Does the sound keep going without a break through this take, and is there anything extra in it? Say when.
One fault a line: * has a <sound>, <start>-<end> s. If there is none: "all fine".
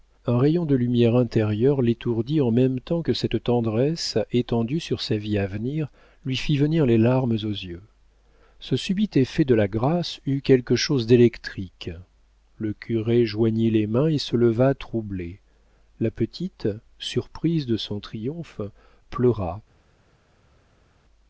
all fine